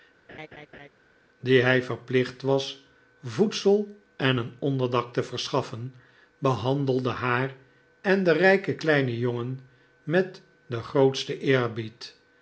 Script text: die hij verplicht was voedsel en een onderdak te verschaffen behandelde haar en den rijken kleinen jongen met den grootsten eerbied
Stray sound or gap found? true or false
true